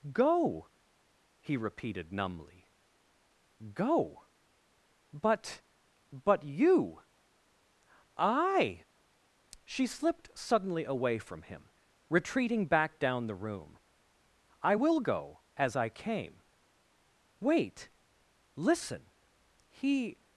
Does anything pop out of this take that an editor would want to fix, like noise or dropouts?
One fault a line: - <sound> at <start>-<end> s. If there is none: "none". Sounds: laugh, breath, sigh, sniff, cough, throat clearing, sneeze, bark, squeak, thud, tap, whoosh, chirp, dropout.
none